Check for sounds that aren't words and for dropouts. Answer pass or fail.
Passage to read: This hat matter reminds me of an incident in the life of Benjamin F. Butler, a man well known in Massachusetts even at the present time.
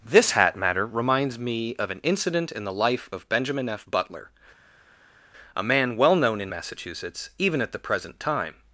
pass